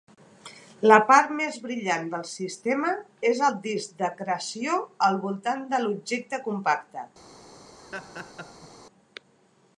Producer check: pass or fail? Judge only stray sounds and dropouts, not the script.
fail